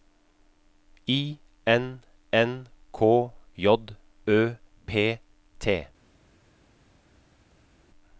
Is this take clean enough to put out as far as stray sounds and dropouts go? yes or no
yes